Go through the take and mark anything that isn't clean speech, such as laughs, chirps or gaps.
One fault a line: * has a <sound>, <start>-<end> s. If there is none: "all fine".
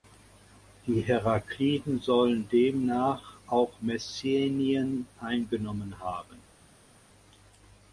all fine